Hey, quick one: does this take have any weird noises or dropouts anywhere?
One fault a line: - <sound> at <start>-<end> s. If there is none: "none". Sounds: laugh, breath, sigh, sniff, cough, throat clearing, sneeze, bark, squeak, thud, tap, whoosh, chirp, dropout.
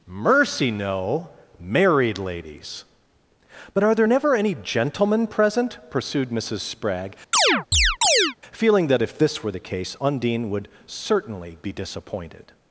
- chirp at 7.3-8.4 s